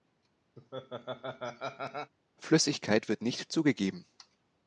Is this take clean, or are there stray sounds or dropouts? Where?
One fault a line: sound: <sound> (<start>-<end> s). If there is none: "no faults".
sound: laugh (0.6-2.1 s)